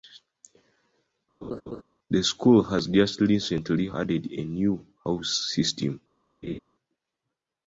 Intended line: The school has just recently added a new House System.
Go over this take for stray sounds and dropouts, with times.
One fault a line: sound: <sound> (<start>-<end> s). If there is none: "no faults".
sound: laugh (1.4-1.8 s)
sound: laugh (6.4-6.6 s)